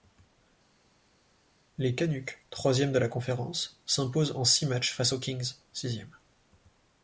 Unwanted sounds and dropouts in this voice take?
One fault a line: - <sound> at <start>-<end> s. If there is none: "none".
none